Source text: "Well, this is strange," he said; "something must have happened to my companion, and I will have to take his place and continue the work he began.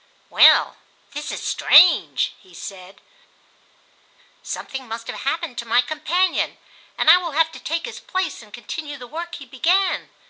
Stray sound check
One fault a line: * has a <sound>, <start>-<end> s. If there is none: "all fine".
all fine